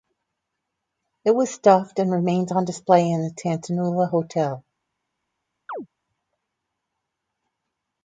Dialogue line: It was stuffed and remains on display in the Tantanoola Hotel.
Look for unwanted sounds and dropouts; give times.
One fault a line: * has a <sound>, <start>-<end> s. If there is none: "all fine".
* has a chirp, 5.7-5.9 s